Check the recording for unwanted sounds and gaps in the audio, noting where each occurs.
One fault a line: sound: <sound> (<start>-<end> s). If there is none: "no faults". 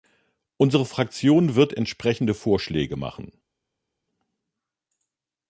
no faults